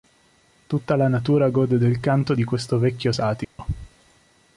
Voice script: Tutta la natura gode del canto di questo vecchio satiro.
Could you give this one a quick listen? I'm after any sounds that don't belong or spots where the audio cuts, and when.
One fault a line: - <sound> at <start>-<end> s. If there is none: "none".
- dropout at 3.4-3.6 s